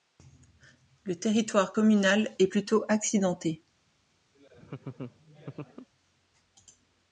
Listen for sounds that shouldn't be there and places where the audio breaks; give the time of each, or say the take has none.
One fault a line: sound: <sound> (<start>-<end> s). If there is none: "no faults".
sound: laugh (4.3-5.9 s)